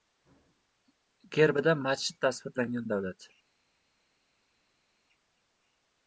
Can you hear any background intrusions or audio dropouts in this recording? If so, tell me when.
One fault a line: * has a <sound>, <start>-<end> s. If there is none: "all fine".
all fine